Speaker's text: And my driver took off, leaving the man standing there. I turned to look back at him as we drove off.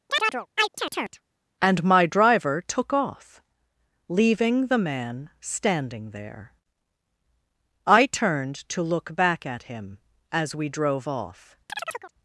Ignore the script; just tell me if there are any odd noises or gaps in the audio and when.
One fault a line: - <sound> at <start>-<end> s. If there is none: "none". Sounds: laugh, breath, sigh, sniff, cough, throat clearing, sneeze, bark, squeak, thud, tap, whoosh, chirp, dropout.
- chirp at 0.1-1.2 s
- chirp at 11.7-12.1 s